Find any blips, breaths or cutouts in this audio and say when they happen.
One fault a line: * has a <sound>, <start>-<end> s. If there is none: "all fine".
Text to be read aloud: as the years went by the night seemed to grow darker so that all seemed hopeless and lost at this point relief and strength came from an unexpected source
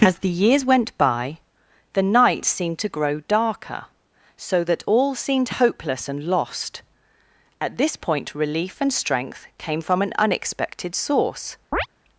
* has a chirp, 11.7-11.9 s